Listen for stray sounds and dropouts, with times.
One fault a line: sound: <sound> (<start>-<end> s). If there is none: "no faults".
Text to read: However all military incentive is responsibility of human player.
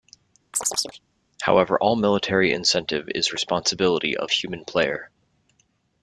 sound: chirp (0.5-1.0 s)